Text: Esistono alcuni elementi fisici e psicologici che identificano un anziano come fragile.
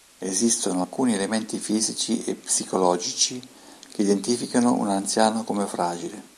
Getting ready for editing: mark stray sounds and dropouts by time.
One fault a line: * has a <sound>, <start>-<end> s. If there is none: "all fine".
all fine